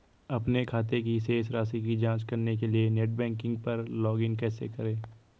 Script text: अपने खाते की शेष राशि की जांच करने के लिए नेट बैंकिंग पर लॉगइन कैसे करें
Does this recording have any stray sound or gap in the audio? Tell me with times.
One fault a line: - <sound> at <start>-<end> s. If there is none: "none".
none